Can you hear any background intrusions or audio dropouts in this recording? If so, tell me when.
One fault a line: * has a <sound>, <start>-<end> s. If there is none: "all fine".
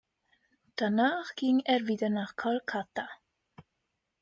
all fine